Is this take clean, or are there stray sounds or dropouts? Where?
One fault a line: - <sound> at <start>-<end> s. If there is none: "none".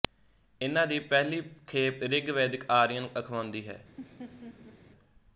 - laugh at 4.0-4.8 s